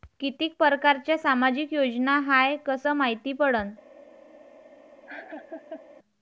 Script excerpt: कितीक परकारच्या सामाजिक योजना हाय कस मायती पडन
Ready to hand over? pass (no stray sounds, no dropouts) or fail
fail